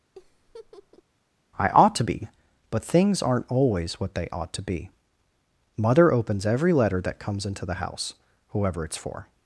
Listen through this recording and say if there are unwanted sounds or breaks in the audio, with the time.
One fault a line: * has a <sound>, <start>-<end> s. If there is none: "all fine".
* has a laugh, 0.2-1.0 s